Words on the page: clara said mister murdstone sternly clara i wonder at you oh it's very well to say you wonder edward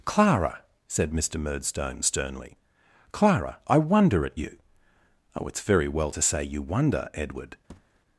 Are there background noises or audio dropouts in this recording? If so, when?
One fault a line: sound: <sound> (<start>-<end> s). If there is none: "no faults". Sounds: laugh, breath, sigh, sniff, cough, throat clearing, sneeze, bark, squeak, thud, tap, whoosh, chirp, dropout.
sound: thud (7.7-8.0 s)